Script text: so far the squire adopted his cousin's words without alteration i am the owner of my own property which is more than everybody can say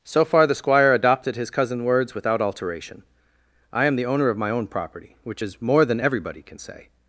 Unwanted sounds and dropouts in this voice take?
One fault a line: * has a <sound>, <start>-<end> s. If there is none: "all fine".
all fine